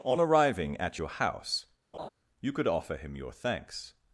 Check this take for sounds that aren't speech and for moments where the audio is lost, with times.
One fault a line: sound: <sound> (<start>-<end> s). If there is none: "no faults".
sound: laugh (1.9-2.1 s)